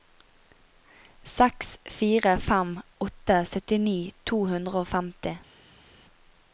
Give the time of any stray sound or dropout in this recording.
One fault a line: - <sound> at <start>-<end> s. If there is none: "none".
none